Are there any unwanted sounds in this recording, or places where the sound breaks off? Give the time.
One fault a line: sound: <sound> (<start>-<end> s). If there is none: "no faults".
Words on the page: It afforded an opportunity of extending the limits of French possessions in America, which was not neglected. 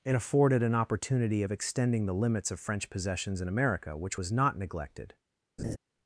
sound: laugh (5.6-5.8 s)